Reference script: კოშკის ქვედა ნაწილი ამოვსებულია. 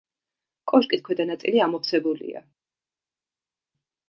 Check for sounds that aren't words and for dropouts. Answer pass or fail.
pass